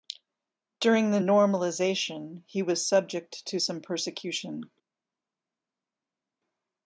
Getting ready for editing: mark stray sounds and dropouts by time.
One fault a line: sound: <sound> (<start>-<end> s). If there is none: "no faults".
no faults